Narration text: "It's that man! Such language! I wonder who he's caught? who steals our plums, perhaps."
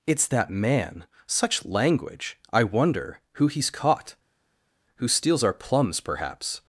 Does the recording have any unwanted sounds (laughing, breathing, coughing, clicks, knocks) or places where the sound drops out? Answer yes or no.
no